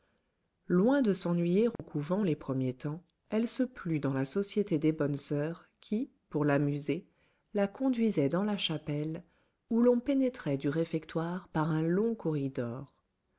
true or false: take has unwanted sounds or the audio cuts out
true